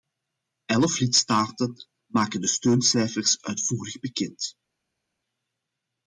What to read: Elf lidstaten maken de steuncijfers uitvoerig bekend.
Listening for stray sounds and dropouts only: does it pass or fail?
pass